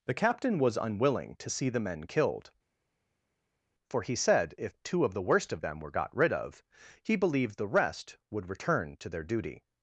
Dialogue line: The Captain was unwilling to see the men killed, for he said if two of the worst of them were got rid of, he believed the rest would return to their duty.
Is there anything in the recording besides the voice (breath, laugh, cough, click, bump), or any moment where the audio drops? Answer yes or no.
no